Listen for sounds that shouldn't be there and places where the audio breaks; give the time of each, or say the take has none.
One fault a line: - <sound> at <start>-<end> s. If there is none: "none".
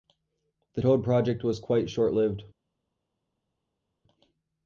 none